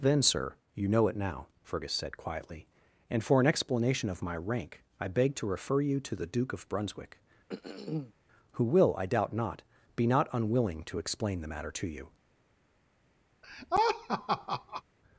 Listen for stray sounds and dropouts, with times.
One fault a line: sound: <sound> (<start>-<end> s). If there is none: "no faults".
sound: throat clearing (7.5-8.1 s)
sound: laugh (13.4-14.8 s)